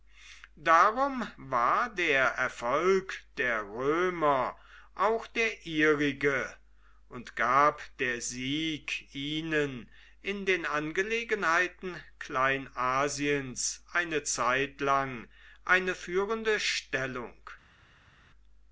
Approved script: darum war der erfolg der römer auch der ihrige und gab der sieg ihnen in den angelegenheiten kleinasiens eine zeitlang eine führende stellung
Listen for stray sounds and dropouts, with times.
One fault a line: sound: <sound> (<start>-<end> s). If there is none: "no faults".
no faults